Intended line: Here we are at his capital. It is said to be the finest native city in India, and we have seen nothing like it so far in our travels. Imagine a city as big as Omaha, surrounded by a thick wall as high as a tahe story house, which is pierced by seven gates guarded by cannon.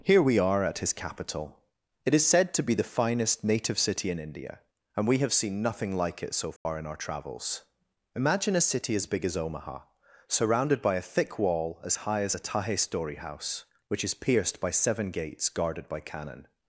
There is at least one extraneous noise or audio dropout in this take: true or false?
true